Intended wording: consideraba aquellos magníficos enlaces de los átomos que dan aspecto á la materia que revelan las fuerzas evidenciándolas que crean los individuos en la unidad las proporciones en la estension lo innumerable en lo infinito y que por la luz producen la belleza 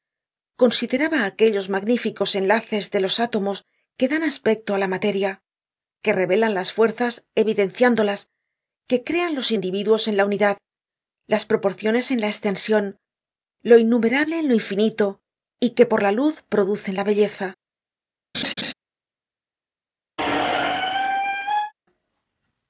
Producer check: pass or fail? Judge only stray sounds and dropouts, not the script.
fail